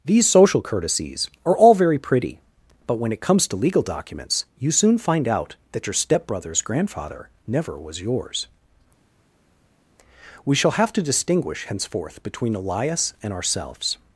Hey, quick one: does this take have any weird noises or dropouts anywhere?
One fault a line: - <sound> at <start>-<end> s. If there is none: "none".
none